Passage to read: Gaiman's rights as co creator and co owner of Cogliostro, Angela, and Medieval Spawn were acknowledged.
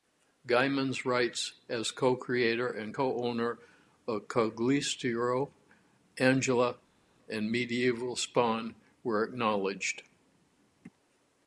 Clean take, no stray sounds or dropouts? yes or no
yes